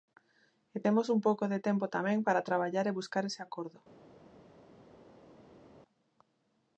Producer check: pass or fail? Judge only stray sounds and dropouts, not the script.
pass